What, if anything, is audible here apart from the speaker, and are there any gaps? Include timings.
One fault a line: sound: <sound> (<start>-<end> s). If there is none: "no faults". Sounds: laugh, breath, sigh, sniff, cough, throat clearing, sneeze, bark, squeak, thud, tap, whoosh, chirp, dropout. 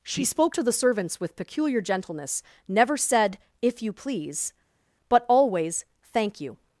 no faults